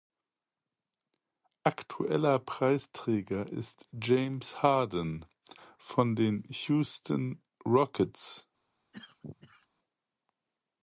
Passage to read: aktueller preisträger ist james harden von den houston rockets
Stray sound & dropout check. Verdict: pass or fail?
fail